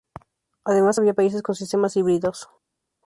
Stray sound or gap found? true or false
false